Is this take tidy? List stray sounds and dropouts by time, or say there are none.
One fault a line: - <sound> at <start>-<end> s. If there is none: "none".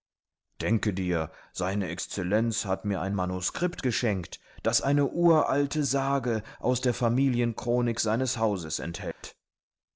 - dropout at 9.1-9.2 s